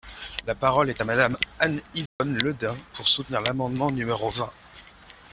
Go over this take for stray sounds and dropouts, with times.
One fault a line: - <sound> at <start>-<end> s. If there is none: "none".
- dropout at 2.1-2.2 s